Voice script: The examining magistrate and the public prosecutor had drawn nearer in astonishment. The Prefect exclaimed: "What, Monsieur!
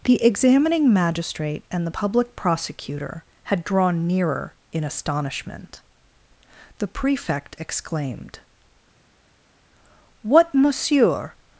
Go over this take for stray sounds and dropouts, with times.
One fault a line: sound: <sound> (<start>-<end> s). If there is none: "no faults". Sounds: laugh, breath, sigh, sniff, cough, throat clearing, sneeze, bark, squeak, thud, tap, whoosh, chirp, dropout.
no faults